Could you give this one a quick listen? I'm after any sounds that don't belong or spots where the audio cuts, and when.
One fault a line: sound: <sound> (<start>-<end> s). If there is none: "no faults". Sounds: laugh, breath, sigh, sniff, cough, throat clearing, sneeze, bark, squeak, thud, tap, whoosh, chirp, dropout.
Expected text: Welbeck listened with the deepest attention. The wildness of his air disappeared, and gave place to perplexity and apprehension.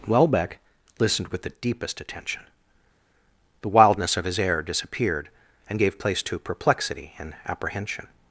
no faults